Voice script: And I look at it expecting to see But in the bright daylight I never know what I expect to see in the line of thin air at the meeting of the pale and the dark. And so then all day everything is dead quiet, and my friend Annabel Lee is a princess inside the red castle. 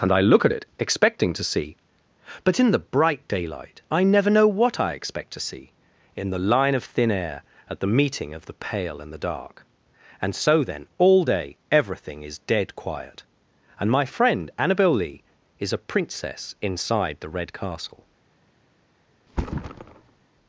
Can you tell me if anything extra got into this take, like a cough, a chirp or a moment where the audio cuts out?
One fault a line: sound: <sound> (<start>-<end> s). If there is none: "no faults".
sound: thud (19.3-20.2 s)